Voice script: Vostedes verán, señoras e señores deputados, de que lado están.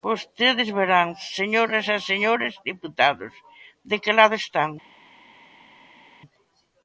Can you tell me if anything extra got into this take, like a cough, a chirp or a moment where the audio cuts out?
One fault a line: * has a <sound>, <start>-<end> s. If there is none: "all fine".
all fine